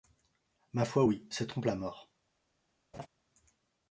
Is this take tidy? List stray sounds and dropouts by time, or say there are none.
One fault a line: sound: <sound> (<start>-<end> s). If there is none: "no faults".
sound: laugh (2.9-3.1 s)